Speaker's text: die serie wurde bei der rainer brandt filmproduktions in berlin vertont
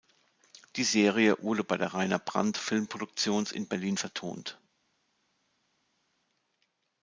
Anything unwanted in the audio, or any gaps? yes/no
no